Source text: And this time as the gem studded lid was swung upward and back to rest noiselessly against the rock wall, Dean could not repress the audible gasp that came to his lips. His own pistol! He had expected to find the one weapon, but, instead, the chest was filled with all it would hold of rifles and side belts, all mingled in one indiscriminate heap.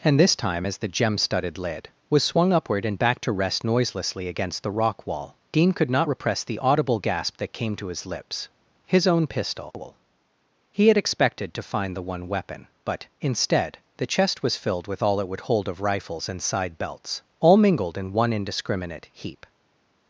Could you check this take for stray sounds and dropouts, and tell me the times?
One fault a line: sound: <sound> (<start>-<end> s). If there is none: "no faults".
no faults